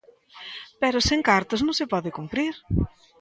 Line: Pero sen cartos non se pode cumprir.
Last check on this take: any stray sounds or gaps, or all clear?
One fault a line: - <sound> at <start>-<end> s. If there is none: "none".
none